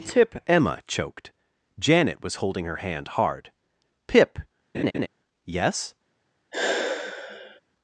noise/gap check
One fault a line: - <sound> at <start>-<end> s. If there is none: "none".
- laugh at 4.7-5.1 s
- sigh at 6.5-7.6 s